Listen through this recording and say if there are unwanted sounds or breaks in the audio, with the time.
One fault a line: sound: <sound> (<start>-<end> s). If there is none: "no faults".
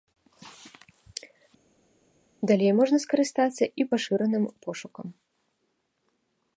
no faults